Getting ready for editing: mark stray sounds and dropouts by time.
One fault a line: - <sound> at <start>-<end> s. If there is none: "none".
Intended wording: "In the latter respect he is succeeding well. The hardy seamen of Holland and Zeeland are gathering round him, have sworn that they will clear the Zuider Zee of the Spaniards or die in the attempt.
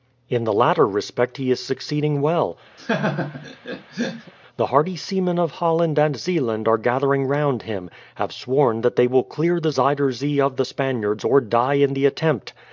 - laugh at 2.8-4.3 s